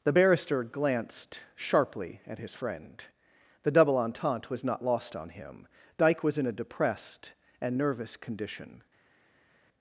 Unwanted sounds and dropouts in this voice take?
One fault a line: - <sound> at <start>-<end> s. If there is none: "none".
none